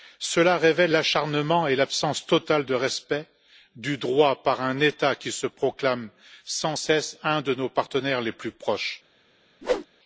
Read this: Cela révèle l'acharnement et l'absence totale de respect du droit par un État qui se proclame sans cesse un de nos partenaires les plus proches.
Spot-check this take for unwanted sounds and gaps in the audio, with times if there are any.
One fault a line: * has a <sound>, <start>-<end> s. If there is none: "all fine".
* has a whoosh, 9.6-9.9 s